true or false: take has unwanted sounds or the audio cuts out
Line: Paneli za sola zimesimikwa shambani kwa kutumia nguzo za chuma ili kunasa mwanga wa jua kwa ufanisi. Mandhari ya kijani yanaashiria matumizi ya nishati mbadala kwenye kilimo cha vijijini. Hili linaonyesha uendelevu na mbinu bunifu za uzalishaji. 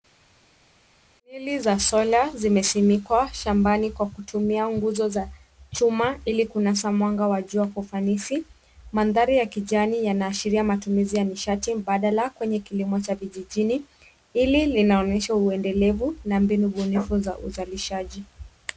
false